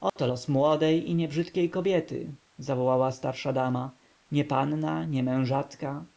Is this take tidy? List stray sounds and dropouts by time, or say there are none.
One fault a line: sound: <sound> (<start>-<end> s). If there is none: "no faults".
sound: dropout (0.1-0.2 s)